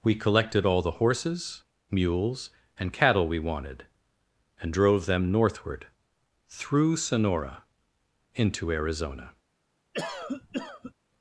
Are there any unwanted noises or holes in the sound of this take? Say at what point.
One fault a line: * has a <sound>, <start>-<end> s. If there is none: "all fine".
* has a cough, 9.9-10.9 s